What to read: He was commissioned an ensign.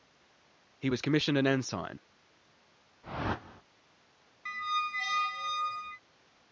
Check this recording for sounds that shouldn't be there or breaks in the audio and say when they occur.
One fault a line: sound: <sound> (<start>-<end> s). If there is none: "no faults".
sound: whoosh (3.0-3.6 s)
sound: squeak (4.5-6.0 s)